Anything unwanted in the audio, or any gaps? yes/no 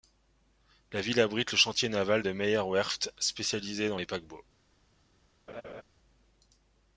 yes